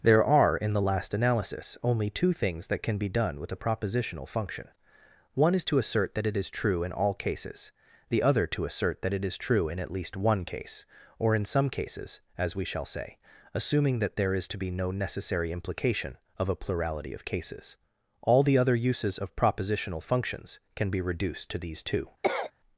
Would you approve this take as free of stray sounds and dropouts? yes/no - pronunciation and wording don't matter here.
no